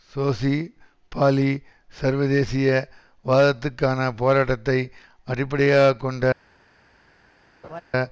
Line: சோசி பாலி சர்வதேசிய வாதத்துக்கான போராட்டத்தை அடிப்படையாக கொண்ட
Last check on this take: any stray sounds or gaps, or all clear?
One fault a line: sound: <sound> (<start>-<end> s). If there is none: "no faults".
sound: laugh (7.6-7.8 s)